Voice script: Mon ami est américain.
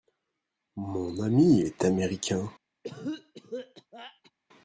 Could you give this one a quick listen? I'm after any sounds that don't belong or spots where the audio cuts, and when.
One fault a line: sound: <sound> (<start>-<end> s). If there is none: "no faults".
sound: cough (2.8-4.3 s)